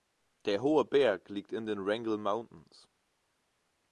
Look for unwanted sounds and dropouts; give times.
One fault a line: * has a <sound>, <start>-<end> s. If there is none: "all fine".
all fine